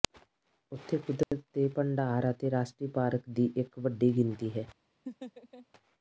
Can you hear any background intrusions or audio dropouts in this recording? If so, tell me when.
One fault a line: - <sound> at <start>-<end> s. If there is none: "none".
- dropout at 1.2-1.3 s
- laugh at 5.1-5.7 s